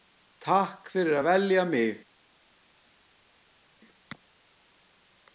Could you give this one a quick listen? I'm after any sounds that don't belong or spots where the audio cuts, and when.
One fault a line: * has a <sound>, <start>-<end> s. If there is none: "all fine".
all fine